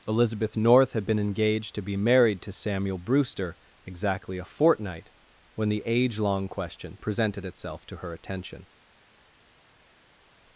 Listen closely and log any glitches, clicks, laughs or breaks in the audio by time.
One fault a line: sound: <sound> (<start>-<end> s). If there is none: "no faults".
no faults